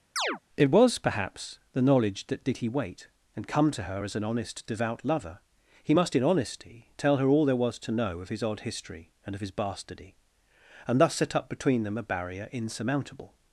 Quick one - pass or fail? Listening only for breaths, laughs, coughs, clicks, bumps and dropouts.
fail